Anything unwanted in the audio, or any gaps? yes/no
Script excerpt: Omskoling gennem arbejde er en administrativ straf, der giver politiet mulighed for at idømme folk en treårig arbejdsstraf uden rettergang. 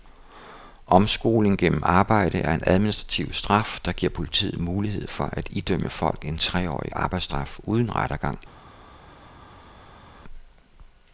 no